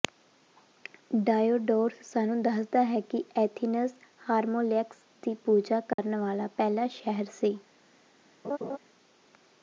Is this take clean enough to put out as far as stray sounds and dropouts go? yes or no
no